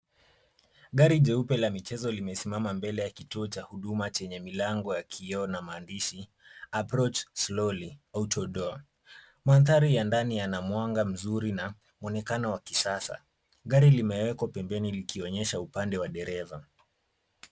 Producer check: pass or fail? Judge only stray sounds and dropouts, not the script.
pass